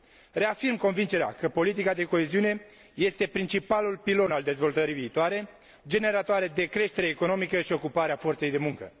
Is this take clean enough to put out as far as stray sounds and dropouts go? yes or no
yes